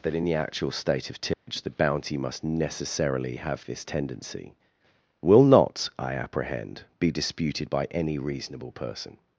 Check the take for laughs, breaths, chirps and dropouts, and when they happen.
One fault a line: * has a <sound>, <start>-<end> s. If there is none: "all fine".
* has a dropout, 1.3-1.5 s